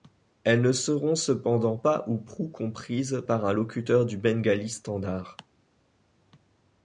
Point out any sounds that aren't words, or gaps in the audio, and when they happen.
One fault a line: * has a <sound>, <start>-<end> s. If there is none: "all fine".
all fine